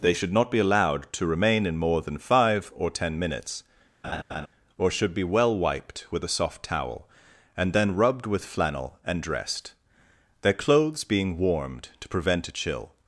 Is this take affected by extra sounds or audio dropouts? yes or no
yes